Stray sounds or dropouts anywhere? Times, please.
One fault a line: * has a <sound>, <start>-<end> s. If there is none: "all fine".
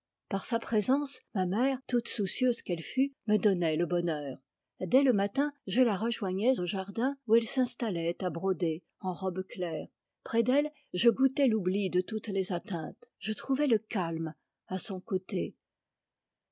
all fine